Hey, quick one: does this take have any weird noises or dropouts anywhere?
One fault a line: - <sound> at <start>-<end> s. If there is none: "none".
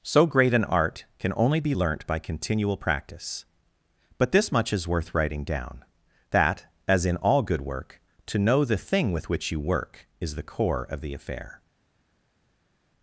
none